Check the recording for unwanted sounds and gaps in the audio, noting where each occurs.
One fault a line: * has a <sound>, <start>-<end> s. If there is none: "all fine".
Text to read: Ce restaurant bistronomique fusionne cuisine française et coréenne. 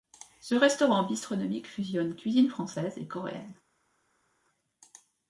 all fine